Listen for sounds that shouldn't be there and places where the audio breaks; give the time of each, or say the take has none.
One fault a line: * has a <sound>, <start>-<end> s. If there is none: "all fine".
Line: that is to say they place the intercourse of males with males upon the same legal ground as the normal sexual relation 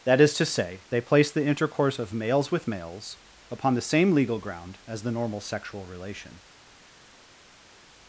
all fine